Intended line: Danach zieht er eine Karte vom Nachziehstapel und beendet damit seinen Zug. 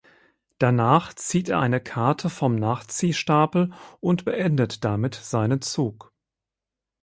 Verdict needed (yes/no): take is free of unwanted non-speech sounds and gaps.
yes